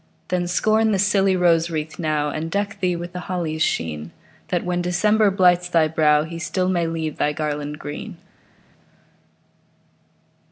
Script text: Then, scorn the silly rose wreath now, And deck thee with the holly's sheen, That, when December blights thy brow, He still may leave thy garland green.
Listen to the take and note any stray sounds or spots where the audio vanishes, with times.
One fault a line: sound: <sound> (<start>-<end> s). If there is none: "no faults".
no faults